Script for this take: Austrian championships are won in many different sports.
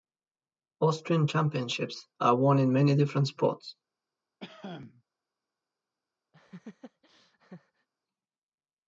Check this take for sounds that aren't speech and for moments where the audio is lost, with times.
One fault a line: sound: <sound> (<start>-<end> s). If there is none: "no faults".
sound: cough (4.4-5.0 s)
sound: laugh (6.3-7.9 s)